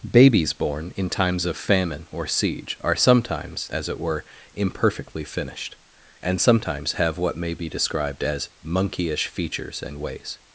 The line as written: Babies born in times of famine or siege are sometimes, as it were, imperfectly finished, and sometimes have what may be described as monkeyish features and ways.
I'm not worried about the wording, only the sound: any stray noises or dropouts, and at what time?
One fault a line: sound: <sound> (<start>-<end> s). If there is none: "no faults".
no faults